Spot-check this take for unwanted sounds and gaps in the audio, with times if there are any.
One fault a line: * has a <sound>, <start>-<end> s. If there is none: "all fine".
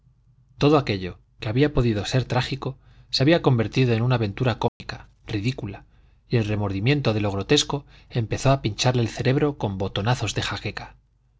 * has a dropout, 4.7-4.8 s